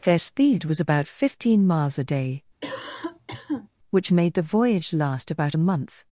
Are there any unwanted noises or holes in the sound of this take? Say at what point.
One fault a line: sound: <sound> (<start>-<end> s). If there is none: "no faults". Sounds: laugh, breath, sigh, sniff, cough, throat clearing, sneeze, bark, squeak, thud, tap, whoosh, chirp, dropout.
sound: cough (2.6-3.7 s)